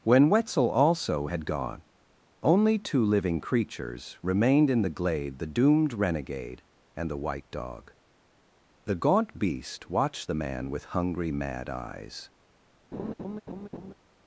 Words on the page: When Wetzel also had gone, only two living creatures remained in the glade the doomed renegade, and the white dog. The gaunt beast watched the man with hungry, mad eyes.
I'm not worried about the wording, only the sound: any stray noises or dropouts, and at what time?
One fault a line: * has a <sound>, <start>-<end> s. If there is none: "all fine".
* has a laugh, 12.9-13.9 s